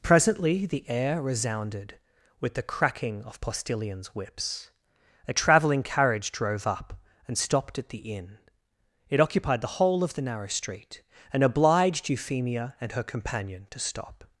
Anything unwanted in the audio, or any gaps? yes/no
no